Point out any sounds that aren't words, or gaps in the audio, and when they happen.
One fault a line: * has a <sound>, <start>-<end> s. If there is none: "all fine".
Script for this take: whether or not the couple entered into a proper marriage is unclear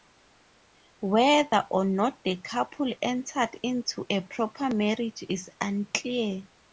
all fine